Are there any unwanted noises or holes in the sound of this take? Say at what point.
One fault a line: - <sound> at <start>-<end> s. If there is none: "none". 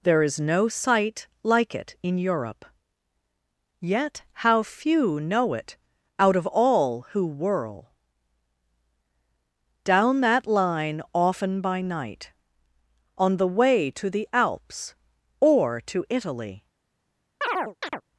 - chirp at 17.4-18.0 s